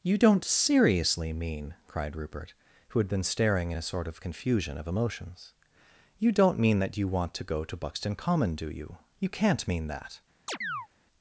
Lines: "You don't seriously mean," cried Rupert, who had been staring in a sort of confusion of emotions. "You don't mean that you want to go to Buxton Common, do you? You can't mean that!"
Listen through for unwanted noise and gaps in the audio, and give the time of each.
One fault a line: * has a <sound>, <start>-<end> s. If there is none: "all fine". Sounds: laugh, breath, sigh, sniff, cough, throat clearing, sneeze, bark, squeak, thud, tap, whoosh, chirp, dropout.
* has a chirp, 10.5-10.9 s